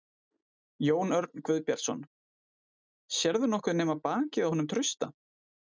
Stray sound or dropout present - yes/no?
no